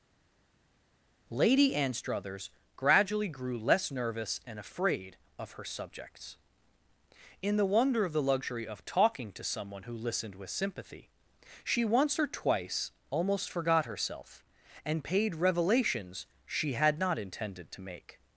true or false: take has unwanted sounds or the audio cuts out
false